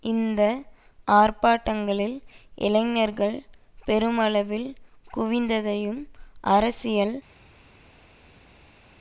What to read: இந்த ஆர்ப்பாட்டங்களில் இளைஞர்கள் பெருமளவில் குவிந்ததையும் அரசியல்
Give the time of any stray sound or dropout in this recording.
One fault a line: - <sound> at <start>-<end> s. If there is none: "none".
none